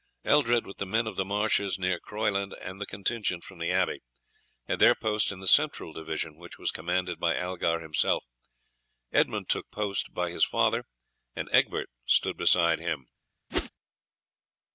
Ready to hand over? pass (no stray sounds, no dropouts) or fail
fail